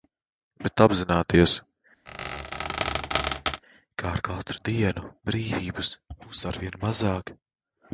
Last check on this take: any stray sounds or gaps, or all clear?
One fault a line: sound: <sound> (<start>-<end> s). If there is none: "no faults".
sound: squeak (2.1-3.6 s)